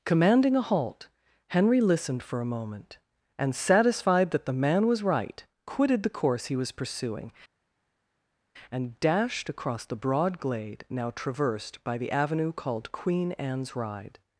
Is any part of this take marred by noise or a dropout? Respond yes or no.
no